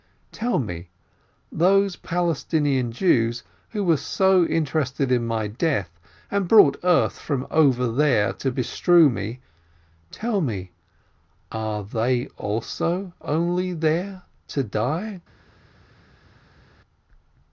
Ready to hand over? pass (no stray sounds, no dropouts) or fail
pass